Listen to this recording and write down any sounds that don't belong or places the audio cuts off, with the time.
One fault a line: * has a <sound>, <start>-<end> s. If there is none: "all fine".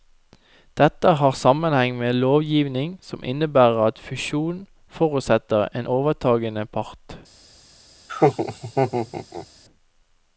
* has a laugh, 8.1-9.5 s